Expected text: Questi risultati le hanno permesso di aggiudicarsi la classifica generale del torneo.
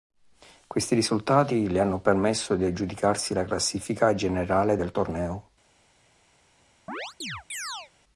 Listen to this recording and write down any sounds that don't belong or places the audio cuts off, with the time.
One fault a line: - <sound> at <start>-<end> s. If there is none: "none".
- chirp at 6.9-7.9 s